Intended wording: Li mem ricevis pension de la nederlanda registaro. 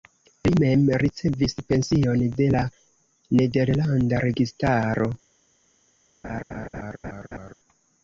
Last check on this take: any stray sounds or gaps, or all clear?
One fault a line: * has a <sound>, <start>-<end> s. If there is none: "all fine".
* has a laugh, 6.2-7.5 s